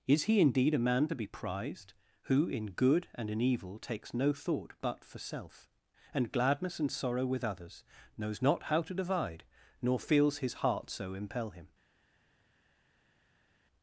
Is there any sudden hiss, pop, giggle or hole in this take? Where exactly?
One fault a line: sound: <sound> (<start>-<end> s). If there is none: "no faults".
no faults